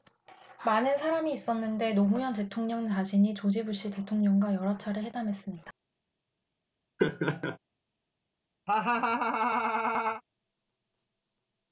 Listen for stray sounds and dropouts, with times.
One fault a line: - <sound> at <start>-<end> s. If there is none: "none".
- laugh at 7.0-7.6 s
- laugh at 8.7-10.2 s